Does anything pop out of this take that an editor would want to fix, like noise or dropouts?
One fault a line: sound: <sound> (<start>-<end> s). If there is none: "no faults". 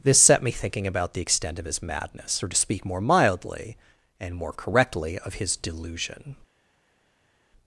no faults